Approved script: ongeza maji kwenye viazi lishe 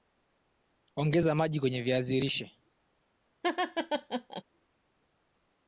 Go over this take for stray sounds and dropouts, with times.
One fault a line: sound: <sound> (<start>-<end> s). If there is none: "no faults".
sound: laugh (3.4-4.4 s)